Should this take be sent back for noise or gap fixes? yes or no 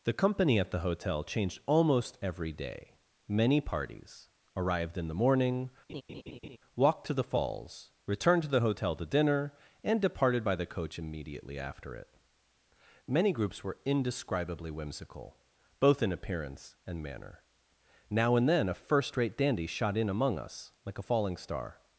yes